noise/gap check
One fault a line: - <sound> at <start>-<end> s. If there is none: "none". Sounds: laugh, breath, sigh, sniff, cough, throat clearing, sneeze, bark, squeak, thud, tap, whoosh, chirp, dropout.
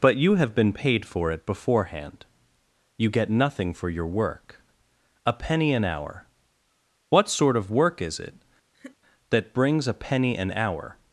- laugh at 8.7-9.0 s